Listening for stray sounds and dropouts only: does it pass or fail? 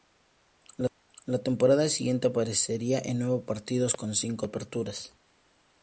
pass